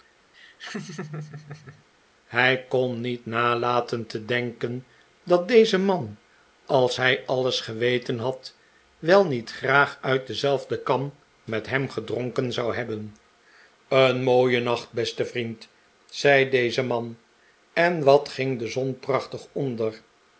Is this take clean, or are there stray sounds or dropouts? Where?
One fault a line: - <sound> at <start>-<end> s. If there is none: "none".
- laugh at 0.3-1.8 s